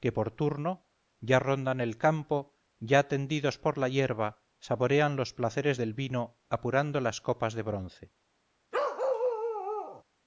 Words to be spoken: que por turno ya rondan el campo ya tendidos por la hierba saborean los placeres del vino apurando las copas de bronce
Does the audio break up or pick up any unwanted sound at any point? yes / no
yes